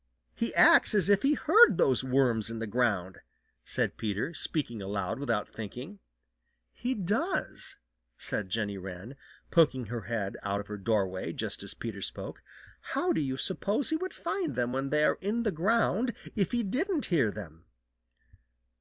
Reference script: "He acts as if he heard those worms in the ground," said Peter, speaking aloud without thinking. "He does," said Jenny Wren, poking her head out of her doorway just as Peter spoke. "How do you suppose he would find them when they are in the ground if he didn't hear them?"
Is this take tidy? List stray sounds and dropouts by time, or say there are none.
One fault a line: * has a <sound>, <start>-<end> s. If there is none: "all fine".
all fine